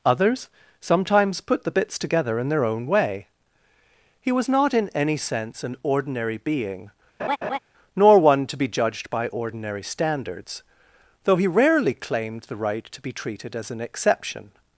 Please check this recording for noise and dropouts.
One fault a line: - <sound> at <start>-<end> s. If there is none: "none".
- laugh at 7.2-7.6 s